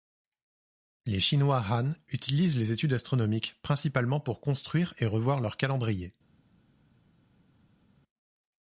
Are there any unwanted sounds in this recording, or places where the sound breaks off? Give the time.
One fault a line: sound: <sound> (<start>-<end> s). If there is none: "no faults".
no faults